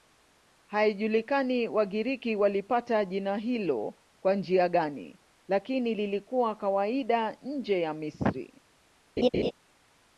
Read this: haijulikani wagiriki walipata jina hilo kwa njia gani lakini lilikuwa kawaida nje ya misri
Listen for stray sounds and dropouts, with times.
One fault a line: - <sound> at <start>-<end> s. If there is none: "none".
- laugh at 9.2-9.5 s